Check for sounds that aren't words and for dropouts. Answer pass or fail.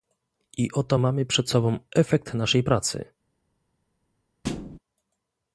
fail